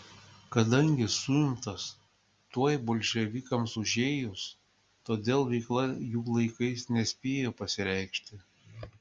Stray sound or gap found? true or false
false